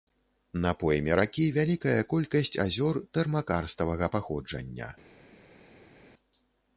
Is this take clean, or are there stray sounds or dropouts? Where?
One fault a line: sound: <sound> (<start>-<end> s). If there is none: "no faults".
no faults